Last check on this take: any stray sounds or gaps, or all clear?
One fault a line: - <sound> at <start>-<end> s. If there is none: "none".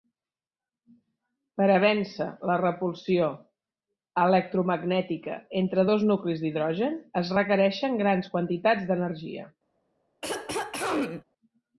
- throat clearing at 10.2-11.2 s